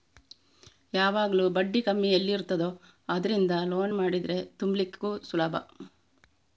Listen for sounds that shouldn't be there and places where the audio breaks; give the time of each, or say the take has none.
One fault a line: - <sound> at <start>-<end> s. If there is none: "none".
none